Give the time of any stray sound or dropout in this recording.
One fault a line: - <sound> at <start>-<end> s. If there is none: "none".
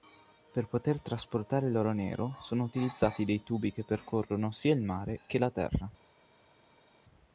none